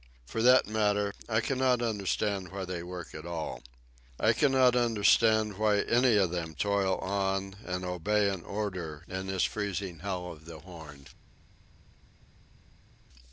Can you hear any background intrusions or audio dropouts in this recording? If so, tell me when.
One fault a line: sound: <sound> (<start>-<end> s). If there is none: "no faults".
no faults